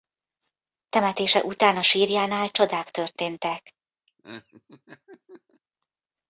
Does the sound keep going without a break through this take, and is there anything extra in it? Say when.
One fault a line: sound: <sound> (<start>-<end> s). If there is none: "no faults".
sound: laugh (4.1-5.6 s)